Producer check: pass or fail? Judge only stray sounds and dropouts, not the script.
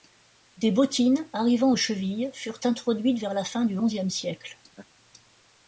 fail